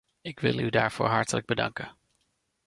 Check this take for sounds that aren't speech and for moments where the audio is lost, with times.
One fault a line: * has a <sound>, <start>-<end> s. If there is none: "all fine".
all fine